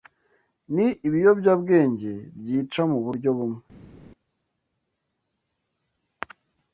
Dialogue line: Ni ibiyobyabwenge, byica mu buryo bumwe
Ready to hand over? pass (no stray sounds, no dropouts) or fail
pass